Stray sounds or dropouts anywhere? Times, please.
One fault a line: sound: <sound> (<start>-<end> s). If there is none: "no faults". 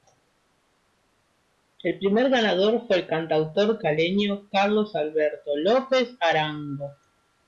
no faults